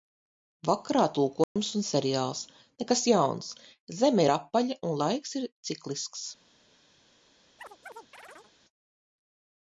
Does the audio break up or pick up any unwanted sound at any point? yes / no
yes